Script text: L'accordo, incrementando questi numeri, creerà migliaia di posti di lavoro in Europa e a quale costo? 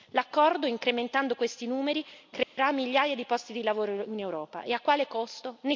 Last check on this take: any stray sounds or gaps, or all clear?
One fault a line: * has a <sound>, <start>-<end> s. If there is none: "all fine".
* has a dropout, 2.4-2.6 s